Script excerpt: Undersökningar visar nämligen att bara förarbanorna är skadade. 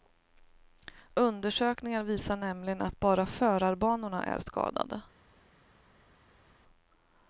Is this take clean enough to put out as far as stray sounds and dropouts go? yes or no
yes